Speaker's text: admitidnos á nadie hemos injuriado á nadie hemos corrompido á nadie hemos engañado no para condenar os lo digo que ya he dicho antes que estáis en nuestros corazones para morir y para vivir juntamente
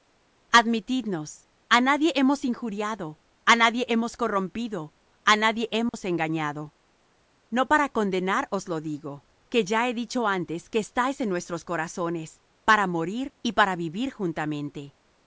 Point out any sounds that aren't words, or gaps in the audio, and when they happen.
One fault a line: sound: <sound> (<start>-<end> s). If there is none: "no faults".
sound: dropout (5.9-5.9 s)